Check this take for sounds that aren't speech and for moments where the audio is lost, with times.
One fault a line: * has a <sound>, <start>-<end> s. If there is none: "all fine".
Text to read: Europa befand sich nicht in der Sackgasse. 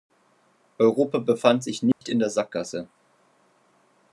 * has a dropout, 1.9-2.0 s